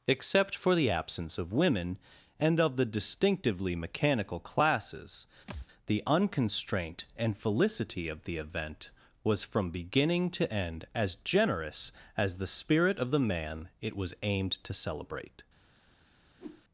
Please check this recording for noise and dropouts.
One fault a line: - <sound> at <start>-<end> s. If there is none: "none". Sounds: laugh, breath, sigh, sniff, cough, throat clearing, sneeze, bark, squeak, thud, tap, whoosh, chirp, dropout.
- thud at 5.5-5.7 s
- whoosh at 16.4-16.6 s